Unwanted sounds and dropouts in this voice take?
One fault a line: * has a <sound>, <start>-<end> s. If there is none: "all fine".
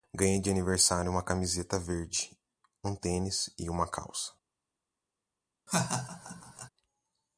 * has a laugh, 5.7-6.7 s